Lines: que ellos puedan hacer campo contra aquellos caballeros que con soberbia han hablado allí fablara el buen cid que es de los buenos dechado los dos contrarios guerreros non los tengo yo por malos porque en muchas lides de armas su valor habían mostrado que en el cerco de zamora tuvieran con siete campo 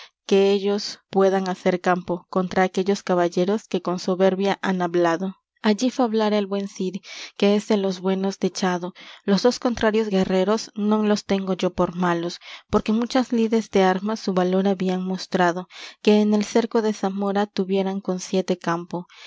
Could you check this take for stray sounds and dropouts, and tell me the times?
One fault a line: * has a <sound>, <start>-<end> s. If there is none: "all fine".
all fine